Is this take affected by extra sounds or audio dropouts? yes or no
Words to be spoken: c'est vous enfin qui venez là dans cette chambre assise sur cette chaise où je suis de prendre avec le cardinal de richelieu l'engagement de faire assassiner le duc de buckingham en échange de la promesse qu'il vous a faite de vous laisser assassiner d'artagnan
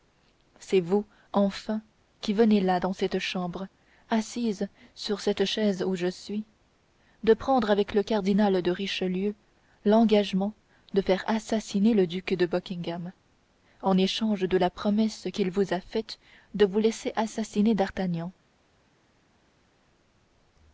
no